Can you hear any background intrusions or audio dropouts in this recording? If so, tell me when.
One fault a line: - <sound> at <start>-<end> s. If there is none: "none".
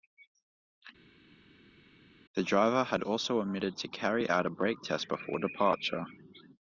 none